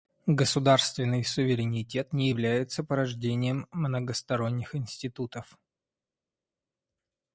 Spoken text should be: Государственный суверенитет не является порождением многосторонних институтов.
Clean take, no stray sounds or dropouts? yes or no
yes